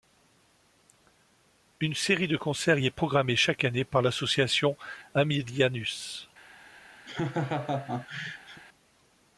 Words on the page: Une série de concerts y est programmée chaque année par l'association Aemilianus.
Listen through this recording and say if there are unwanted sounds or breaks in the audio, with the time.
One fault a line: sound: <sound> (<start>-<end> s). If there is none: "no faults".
sound: laugh (7.1-8.6 s)